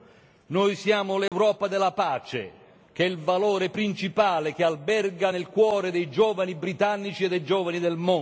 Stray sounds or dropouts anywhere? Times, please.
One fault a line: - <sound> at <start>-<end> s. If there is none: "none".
- dropout at 1.3-1.3 s